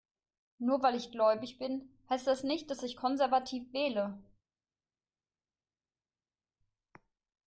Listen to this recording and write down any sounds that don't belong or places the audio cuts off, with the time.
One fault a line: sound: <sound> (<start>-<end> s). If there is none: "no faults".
no faults